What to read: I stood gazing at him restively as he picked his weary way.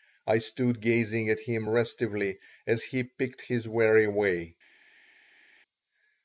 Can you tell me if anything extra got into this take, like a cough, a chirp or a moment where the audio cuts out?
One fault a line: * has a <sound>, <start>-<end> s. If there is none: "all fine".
all fine